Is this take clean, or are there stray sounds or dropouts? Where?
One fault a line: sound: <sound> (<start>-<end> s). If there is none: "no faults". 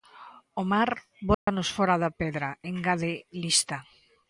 sound: dropout (1.3-1.5 s)